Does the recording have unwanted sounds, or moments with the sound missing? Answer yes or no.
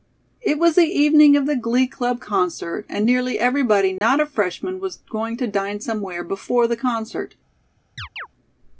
yes